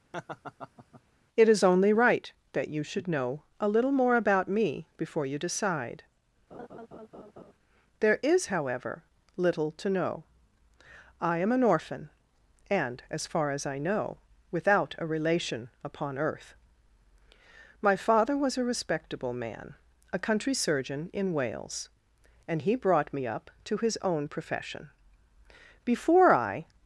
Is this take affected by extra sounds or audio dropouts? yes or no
yes